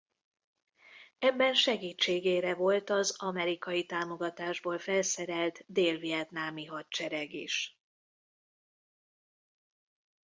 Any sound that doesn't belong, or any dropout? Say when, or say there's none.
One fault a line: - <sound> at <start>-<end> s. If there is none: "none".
none